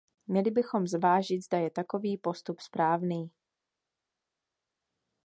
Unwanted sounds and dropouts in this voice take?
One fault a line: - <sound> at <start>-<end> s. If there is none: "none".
none